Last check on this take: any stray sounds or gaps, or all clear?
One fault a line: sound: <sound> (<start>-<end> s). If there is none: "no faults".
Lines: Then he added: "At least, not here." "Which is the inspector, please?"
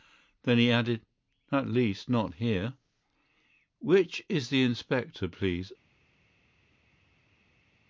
no faults